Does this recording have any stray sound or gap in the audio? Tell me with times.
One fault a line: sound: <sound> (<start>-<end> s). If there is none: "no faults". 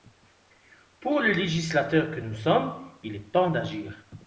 no faults